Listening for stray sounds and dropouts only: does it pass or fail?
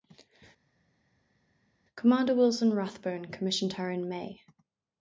pass